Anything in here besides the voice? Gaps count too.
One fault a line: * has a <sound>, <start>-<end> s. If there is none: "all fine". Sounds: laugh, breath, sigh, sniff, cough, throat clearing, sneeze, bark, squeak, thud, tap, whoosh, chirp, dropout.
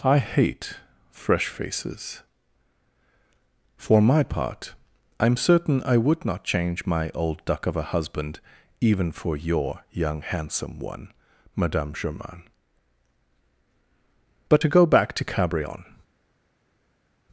all fine